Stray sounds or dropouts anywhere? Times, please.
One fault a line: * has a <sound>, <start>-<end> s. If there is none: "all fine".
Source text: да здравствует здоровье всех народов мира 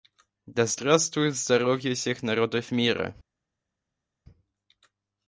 all fine